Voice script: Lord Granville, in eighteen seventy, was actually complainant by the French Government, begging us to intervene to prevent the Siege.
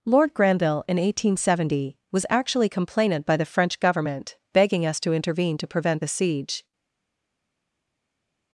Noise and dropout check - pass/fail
pass